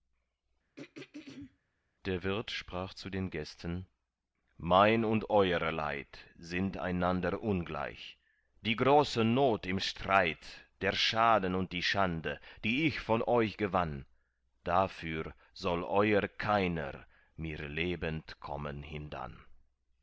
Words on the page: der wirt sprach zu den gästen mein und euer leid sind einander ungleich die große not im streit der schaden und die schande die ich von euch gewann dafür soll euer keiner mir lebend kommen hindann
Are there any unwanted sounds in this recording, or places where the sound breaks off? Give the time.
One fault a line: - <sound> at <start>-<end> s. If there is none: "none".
- throat clearing at 0.8-1.6 s